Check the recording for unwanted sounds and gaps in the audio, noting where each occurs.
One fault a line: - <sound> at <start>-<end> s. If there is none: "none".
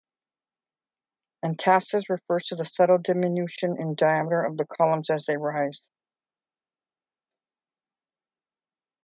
none